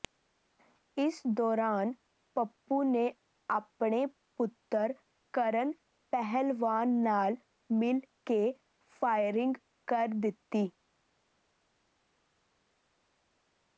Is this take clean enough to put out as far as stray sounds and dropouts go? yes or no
yes